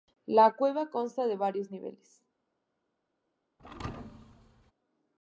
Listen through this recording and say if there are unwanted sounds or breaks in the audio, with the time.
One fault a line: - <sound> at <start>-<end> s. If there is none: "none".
- thud at 3.6-4.7 s